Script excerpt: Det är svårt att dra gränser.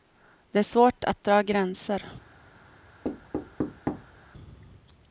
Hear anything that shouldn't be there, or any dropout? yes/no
yes